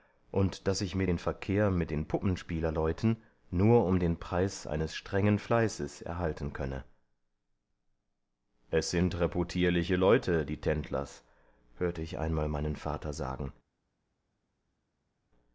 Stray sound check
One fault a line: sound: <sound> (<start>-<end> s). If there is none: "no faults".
no faults